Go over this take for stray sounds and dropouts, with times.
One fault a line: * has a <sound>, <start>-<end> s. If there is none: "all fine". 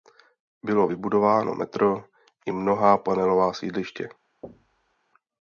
* has a thud, 4.4-5.0 s